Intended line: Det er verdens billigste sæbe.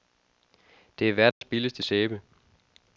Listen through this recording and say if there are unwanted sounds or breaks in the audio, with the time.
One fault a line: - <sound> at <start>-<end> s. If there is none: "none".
- dropout at 1.3-1.4 s